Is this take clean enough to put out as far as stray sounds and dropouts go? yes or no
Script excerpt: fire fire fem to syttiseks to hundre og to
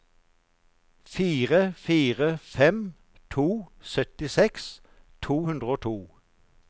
yes